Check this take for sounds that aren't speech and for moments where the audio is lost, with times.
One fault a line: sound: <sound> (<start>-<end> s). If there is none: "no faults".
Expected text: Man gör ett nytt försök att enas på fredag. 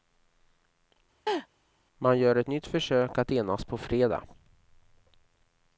sound: laugh (1.3-1.5 s)